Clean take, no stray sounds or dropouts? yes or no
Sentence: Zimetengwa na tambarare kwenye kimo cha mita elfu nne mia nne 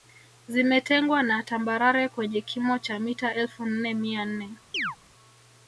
no